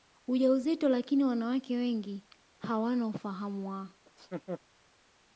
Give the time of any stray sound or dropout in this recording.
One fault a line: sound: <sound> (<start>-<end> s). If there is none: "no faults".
sound: laugh (4.1-4.6 s)